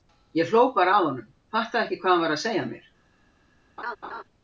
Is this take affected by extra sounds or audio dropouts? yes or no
yes